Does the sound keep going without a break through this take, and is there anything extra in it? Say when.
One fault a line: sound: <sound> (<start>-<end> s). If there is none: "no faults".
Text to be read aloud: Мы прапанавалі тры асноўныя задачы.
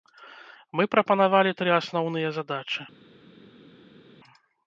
no faults